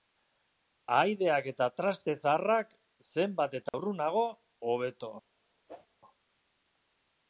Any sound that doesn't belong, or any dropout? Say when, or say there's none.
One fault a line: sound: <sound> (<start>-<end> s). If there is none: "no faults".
sound: dropout (3.7-3.7 s)
sound: whoosh (5.7-5.9 s)